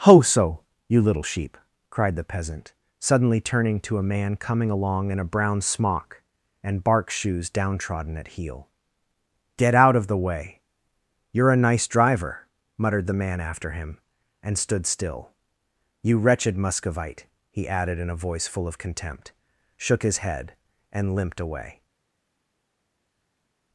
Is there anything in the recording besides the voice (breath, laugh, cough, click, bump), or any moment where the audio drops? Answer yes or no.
no